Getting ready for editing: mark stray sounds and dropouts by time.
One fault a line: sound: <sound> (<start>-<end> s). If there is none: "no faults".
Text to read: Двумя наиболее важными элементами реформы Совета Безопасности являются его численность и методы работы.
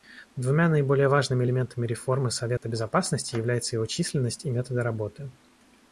sound: dropout (2.6-2.6 s)